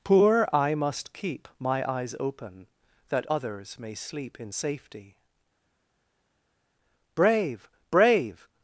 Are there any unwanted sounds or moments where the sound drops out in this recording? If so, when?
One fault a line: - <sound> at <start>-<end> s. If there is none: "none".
none